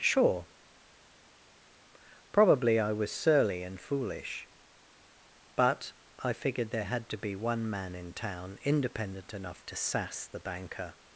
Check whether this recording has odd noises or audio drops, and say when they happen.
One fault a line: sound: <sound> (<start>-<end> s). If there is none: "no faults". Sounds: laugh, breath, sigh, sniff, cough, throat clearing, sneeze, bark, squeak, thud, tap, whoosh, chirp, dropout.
no faults